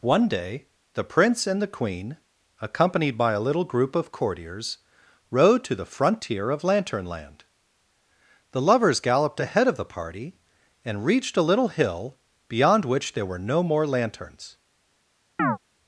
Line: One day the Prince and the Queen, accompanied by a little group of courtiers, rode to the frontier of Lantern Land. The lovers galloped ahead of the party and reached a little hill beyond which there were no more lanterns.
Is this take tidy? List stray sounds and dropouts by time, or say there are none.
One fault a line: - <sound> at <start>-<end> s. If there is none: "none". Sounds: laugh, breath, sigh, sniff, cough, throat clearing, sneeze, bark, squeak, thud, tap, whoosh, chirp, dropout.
- chirp at 15.4-15.6 s